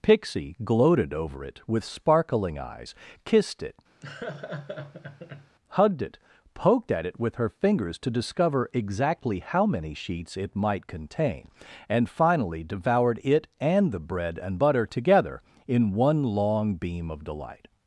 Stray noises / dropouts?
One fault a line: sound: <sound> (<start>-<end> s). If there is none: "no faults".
sound: laugh (4.0-5.6 s)